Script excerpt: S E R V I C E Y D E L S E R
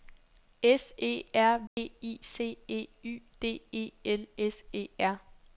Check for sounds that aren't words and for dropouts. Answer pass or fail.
fail